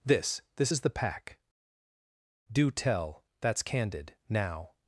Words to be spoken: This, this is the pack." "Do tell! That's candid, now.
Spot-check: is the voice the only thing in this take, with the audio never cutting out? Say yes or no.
yes